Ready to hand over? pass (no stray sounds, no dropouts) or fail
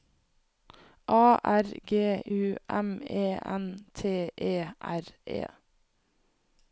pass